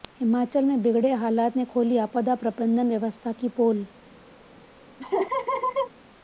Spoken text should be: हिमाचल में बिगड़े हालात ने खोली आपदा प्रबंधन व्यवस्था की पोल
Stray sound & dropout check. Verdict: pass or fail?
fail